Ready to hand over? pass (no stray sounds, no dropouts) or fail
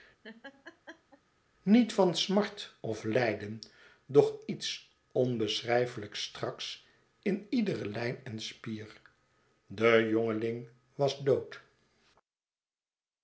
fail